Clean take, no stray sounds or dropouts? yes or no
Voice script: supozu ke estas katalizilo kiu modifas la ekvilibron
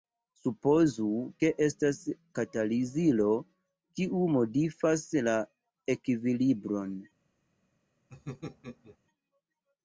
no